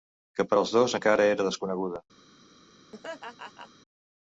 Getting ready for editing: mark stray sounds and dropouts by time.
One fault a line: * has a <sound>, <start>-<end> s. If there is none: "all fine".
* has a laugh, 2.9-3.7 s